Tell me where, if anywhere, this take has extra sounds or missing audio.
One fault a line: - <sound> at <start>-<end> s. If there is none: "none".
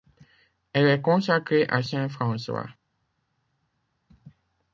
none